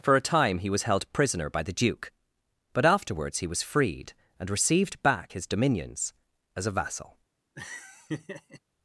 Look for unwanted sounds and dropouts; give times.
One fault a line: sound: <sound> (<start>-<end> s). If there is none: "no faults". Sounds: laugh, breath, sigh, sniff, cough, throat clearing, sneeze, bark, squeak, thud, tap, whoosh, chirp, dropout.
sound: laugh (7.5-8.6 s)